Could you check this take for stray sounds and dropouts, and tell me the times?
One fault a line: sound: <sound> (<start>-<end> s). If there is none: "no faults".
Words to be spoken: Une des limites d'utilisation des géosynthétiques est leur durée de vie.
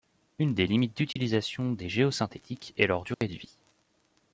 sound: dropout (1.1-1.2 s)
sound: dropout (3.1-3.2 s)